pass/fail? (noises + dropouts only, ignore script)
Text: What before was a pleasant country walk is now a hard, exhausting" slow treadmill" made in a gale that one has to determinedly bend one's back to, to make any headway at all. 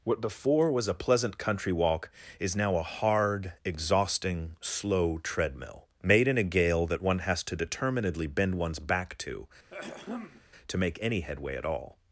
fail